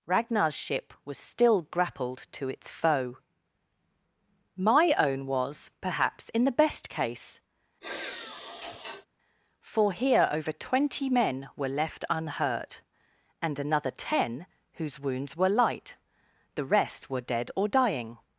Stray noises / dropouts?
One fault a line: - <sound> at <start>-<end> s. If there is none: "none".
- sigh at 7.8-9.1 s